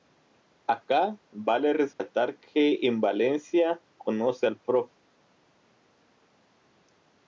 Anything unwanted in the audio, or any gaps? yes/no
yes